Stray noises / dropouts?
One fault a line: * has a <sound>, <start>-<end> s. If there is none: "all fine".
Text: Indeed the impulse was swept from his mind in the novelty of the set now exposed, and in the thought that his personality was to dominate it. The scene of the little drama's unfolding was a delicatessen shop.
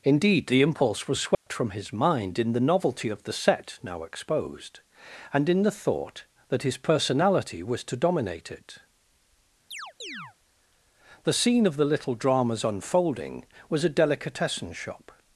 * has a dropout, 1.3-1.5 s
* has a chirp, 9.7-10.4 s